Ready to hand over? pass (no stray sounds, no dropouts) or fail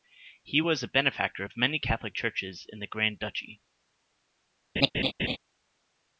fail